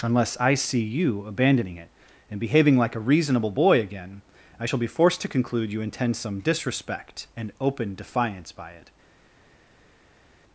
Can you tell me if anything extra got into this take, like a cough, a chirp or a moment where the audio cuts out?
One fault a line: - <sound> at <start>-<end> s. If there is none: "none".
none